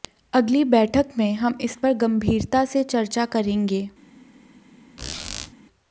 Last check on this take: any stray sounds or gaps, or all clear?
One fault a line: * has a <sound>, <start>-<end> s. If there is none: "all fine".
* has a squeak, 5.0-5.5 s